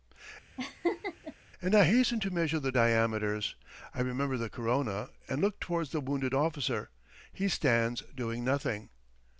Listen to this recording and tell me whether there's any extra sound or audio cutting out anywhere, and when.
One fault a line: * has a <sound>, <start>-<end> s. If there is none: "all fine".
* has a laugh, 0.6-1.3 s